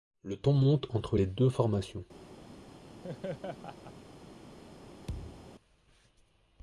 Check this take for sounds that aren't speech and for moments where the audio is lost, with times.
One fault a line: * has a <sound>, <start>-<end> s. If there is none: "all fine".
* has a laugh, 3.0-3.9 s
* has a thud, 5.1-5.5 s